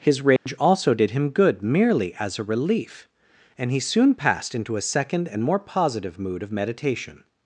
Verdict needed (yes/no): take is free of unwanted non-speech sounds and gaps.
no